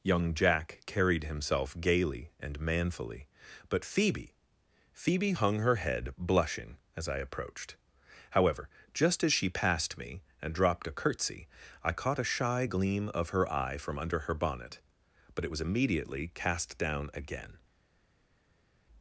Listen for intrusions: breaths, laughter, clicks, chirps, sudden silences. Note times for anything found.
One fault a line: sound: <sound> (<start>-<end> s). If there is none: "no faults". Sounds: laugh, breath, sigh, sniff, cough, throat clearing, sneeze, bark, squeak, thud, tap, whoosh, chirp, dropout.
no faults